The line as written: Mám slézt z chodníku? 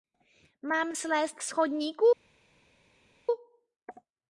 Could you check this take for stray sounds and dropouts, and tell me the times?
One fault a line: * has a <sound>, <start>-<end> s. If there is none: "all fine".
all fine